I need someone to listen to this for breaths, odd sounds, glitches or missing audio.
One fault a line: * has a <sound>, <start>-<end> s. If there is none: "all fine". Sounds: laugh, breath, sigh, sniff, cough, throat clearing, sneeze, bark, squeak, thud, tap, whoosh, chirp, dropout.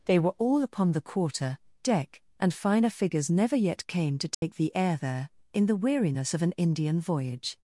* has a dropout, 4.3-4.4 s